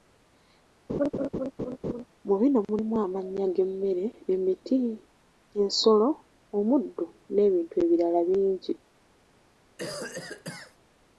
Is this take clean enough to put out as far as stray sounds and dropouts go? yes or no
no